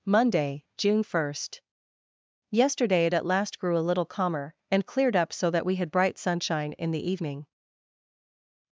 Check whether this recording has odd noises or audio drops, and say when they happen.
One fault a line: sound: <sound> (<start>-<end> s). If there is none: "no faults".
no faults